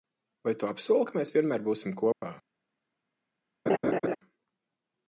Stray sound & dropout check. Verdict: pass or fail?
fail